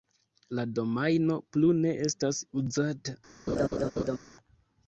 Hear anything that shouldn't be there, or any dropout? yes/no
yes